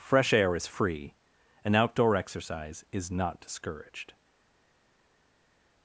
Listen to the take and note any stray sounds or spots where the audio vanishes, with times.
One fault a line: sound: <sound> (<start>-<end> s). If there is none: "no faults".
no faults